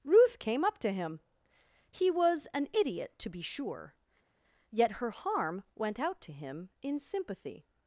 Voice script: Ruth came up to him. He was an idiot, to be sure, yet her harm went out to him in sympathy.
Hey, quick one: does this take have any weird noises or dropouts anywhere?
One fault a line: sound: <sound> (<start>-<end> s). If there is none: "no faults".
no faults